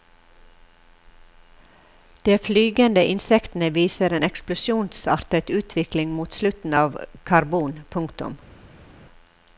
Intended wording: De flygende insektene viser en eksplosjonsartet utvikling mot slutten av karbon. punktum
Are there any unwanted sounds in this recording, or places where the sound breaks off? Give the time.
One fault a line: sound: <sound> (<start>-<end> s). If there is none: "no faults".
no faults